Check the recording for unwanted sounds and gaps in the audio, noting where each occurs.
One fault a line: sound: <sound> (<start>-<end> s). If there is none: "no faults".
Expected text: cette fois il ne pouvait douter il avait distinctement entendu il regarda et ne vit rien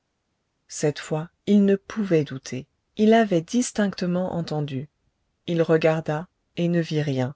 no faults